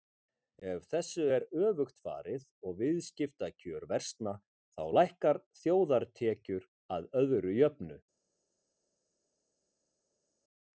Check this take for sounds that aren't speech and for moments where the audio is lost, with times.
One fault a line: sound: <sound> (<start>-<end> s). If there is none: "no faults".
no faults